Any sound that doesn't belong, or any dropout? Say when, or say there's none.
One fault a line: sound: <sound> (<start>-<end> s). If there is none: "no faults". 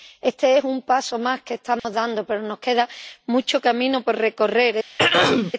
sound: dropout (1.8-1.8 s)
sound: throat clearing (5.0-5.5 s)